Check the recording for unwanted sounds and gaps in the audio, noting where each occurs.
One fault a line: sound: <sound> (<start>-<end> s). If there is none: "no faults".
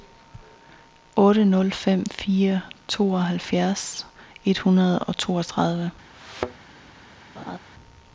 sound: thud (6.1-6.7 s)
sound: laugh (7.4-7.6 s)